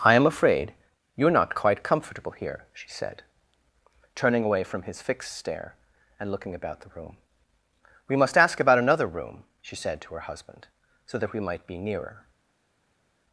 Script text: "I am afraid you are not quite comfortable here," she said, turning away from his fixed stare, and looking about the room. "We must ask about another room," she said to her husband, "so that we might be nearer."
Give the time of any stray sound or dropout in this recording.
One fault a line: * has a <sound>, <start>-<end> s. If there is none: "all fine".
all fine